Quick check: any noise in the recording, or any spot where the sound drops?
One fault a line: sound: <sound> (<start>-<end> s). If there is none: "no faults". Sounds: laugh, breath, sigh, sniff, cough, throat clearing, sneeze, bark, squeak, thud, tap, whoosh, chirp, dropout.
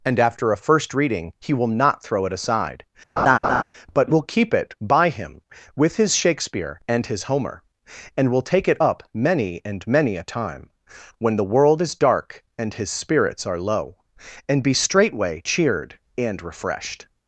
sound: laugh (3.2-3.6 s)